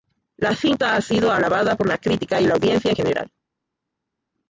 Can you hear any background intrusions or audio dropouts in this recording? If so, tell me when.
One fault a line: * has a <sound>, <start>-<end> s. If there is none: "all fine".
all fine